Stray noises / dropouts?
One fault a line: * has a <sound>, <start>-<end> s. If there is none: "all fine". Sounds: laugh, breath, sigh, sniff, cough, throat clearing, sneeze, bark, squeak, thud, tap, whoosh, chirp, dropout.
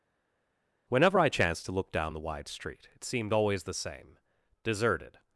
all fine